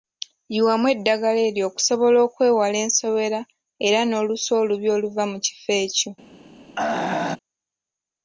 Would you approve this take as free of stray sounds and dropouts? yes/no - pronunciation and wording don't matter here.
no